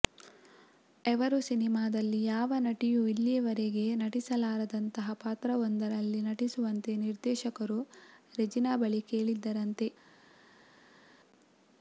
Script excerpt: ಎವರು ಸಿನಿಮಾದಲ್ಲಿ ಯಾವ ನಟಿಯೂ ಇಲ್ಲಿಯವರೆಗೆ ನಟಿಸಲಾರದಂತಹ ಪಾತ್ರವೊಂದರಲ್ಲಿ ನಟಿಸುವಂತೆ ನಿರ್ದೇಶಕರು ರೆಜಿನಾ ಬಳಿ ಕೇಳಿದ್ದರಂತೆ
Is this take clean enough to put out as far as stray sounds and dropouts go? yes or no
yes